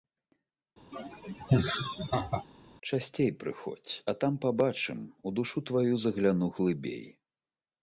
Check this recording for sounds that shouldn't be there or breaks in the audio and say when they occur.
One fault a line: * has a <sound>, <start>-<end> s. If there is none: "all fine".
* has a laugh, 0.9-2.5 s